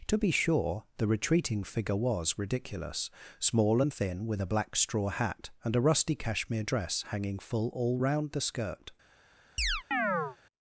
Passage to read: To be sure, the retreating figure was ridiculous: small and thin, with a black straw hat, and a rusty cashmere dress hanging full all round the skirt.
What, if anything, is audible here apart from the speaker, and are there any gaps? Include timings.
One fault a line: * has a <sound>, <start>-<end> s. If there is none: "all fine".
* has a chirp, 9.6-10.4 s